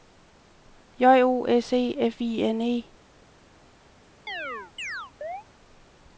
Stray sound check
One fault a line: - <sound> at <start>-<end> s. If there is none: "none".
- chirp at 4.3-5.4 s